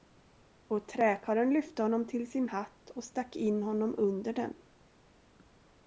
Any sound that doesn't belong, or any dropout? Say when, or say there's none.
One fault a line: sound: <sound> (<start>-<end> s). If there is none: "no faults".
no faults